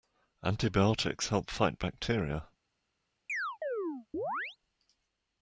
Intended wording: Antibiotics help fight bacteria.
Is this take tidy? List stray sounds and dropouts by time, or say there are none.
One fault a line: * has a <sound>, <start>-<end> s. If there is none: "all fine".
* has a chirp, 3.3-4.6 s